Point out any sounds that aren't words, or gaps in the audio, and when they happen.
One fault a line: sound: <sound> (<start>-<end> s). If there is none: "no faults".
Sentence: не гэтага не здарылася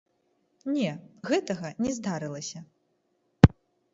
no faults